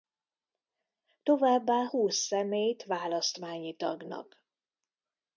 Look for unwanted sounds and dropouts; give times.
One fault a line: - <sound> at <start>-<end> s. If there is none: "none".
none